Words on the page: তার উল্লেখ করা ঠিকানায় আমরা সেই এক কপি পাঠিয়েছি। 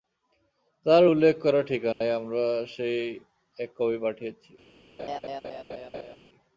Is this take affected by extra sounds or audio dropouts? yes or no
yes